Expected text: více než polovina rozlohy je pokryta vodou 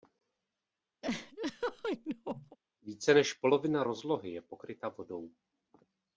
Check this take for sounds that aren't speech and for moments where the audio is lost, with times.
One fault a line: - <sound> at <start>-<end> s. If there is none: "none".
- laugh at 1.0-2.6 s